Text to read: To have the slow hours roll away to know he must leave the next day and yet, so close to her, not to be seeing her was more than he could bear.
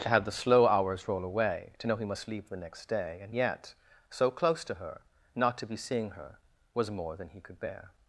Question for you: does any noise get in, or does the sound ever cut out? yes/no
no